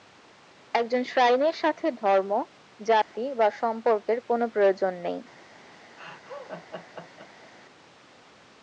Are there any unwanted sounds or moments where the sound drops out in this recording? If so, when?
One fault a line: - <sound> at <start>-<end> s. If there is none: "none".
- dropout at 3.0-3.1 s
- laugh at 6.0-7.5 s